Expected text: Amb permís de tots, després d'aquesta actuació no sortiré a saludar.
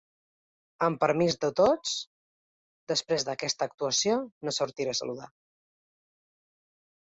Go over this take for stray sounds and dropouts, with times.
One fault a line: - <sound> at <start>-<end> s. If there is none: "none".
none